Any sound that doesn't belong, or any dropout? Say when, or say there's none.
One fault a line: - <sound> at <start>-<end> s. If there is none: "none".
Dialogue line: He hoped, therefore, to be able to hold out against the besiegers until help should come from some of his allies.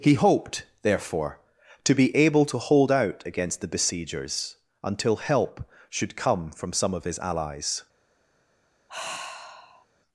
- sigh at 8.9-9.9 s